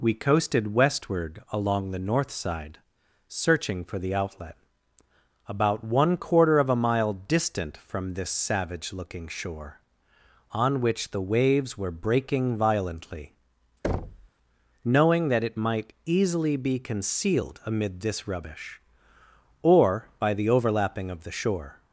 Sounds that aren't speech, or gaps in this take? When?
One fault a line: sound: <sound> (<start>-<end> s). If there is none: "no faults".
sound: thud (13.8-14.3 s)